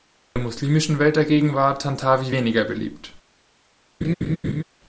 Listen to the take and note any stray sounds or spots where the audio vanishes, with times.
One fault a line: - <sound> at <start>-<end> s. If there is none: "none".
- laugh at 4.0-4.6 s